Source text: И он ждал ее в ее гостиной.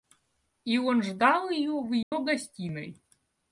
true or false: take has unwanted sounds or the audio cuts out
true